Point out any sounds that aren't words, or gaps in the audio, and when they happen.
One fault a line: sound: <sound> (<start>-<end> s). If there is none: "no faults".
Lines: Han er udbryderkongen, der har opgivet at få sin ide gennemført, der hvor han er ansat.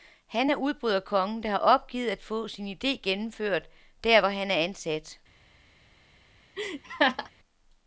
sound: laugh (6.6-7.3 s)